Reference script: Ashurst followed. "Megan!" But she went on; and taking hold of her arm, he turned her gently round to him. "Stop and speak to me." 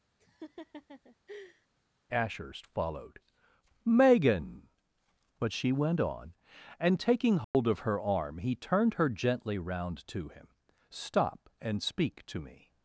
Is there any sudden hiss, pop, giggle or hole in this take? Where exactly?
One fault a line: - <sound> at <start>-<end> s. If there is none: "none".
- laugh at 0.2-1.7 s
- dropout at 7.4-7.5 s